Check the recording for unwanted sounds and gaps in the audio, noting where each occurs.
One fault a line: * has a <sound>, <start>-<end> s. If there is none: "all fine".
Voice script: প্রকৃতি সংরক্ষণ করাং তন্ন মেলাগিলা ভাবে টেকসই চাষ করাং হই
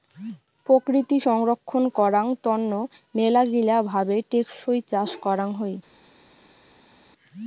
all fine